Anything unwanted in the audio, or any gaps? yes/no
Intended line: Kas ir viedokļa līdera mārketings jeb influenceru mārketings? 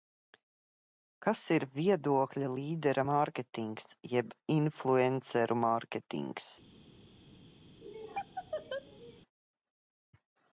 yes